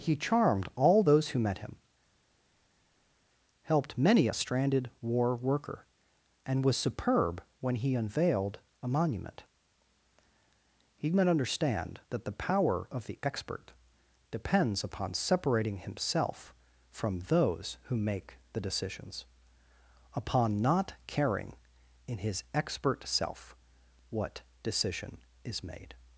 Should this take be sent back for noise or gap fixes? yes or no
no